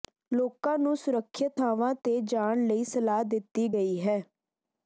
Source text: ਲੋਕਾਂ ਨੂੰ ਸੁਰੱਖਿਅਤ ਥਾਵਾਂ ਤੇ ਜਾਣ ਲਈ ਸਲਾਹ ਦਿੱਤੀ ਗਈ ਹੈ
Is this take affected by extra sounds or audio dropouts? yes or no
no